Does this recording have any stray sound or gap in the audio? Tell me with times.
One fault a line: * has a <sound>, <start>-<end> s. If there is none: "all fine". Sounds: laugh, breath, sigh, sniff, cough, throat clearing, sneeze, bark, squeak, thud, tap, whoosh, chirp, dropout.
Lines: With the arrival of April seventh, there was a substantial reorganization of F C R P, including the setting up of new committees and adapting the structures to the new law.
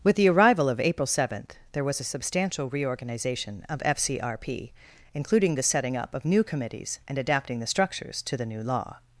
all fine